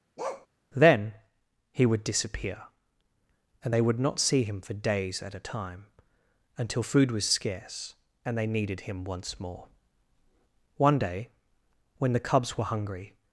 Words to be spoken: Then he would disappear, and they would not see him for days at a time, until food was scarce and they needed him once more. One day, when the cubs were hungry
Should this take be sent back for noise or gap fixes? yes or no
yes